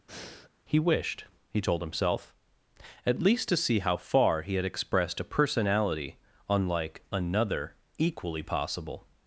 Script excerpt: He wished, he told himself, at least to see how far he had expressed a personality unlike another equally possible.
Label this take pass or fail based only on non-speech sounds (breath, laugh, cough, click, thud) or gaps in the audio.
fail